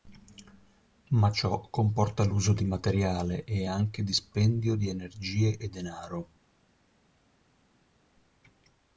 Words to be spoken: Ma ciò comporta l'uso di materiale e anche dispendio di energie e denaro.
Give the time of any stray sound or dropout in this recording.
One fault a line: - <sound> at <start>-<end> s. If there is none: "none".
none